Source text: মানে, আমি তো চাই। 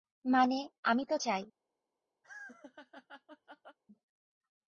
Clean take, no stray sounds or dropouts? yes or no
no